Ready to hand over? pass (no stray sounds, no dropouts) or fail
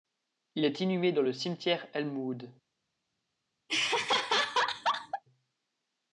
fail